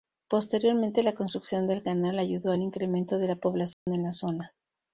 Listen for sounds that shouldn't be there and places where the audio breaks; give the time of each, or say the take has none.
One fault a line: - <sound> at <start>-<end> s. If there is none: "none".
- dropout at 3.7-3.9 s